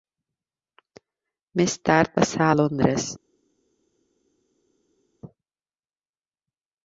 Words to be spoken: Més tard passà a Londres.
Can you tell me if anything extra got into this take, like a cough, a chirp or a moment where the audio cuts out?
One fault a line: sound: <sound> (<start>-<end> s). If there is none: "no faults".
no faults